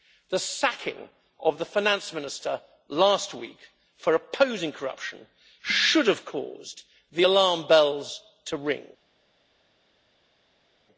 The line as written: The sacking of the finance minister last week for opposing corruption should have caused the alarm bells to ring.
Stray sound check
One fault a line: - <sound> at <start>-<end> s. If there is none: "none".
none